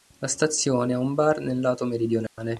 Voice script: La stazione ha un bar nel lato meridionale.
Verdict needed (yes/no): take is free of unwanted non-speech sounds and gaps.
no